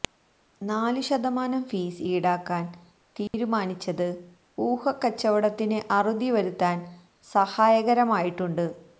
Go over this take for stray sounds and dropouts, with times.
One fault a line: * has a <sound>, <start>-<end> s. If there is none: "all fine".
* has a dropout, 3.3-3.3 s